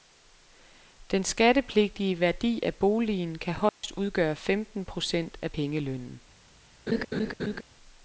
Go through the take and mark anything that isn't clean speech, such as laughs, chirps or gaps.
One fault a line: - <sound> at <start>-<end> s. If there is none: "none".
- dropout at 3.7-3.8 s
- laugh at 6.9-7.6 s